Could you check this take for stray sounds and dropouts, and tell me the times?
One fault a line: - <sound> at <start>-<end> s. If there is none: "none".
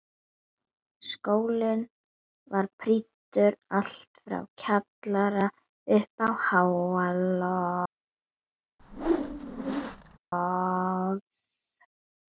- whoosh at 8.8-10.2 s